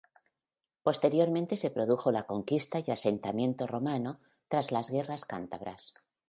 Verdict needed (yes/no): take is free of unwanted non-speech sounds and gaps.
yes